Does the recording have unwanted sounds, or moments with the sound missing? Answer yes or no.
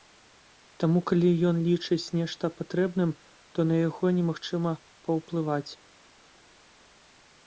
no